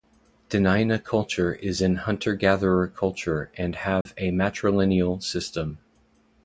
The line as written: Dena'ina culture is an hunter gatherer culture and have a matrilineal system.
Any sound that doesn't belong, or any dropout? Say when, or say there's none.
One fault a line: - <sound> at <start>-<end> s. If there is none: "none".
- dropout at 4.0-4.1 s